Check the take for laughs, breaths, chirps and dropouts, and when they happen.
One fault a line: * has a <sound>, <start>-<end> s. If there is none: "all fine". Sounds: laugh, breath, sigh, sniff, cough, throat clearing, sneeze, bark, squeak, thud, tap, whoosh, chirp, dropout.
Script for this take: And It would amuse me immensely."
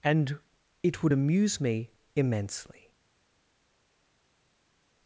all fine